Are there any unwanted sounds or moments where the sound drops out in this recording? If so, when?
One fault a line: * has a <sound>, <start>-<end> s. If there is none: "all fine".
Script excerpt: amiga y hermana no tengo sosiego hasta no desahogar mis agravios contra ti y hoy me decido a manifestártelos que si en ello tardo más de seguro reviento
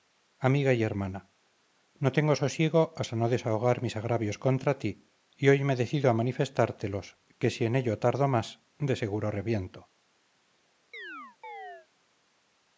* has a chirp, 10.9-11.9 s